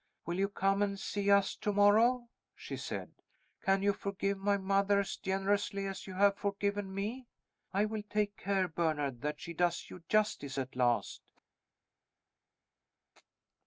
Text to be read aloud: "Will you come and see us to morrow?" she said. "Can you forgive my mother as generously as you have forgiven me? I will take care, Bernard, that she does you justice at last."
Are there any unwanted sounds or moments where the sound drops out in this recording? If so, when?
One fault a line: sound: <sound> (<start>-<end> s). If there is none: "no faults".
no faults